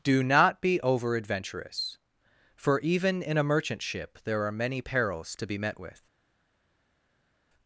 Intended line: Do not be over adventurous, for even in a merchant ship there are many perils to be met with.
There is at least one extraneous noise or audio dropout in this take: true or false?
false